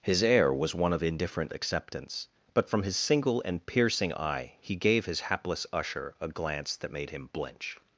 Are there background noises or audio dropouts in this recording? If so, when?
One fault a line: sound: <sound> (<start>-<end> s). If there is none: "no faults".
no faults